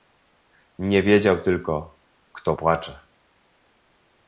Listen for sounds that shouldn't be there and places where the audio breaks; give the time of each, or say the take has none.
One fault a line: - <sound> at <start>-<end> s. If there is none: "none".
none